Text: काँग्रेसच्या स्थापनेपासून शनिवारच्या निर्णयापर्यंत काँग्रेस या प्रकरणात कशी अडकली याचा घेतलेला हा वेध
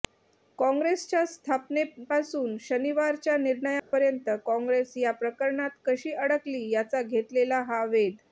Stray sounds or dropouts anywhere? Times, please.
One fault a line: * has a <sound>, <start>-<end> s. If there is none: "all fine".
* has a dropout, 3.8-3.9 s